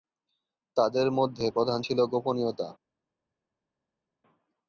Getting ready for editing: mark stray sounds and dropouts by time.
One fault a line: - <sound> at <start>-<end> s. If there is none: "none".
none